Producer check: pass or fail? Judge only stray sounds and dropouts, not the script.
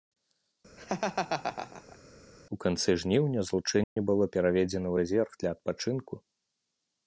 fail